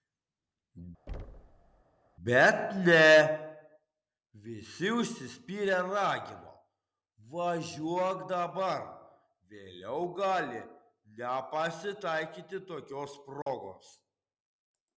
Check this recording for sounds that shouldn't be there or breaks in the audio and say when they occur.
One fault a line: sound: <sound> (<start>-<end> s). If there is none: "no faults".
sound: thud (1.1-1.8 s)
sound: dropout (13.4-13.5 s)